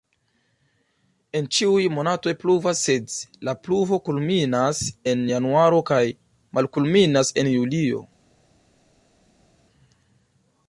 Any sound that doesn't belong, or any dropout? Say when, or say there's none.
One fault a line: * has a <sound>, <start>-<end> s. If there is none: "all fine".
all fine